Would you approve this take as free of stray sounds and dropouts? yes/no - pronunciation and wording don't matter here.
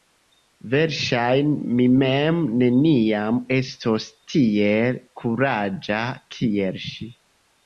yes